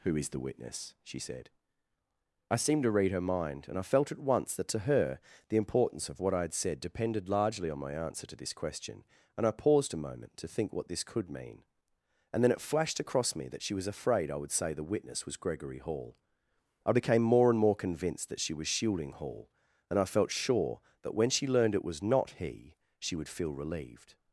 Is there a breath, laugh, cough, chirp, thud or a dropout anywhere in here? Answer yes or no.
no